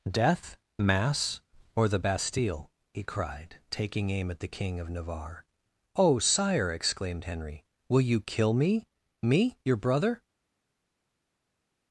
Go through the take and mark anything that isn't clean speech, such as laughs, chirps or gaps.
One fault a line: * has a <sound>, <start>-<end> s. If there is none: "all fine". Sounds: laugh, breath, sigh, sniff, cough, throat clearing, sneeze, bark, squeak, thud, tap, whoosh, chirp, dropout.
all fine